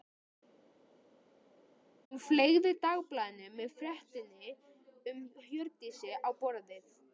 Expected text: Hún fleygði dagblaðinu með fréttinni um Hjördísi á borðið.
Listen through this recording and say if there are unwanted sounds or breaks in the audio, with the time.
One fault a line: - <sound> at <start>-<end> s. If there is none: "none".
none